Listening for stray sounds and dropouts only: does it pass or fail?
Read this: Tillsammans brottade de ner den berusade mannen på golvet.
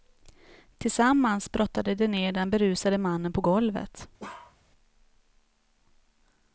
fail